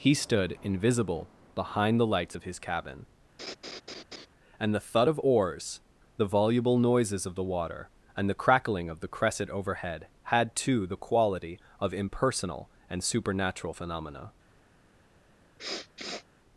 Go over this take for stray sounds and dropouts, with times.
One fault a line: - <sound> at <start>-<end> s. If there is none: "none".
- laugh at 3.4-4.3 s
- sniff at 15.6-16.2 s